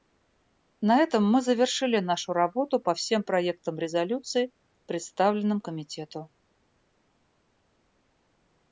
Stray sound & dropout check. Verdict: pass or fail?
pass